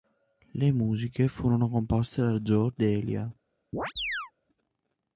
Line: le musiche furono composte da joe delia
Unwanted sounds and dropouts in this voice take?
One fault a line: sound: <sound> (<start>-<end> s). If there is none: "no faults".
sound: chirp (3.7-4.3 s)